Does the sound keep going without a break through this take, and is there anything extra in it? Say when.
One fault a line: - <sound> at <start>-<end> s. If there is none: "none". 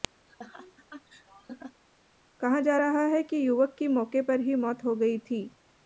- laugh at 0.3-1.8 s